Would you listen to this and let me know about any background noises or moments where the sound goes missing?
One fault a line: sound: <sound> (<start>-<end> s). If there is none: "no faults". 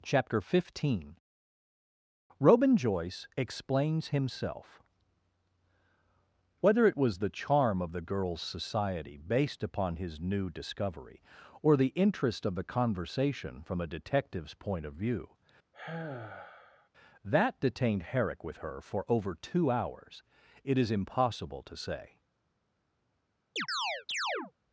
sound: sigh (15.7-16.9 s)
sound: chirp (23.6-24.5 s)